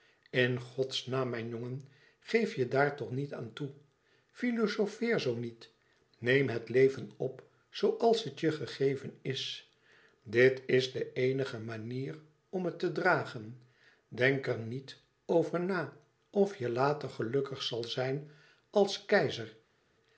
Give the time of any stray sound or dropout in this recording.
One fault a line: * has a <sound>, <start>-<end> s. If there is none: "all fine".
all fine